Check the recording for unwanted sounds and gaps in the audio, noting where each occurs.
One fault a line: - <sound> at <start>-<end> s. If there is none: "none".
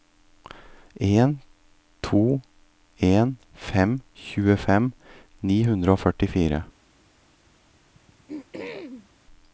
- throat clearing at 7.9-9.1 s